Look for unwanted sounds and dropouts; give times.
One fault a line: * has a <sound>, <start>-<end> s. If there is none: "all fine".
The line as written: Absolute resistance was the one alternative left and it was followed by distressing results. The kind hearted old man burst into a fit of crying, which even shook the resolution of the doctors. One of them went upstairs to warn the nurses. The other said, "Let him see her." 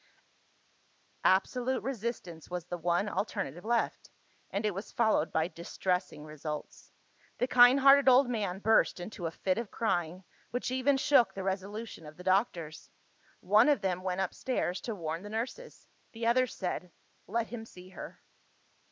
all fine